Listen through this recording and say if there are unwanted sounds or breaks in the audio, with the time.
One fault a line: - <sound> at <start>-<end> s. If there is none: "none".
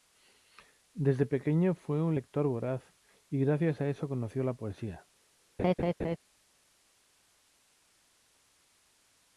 - laugh at 5.6-6.2 s